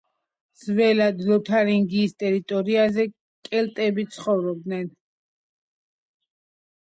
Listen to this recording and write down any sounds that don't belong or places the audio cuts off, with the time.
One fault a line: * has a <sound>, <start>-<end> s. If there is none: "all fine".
all fine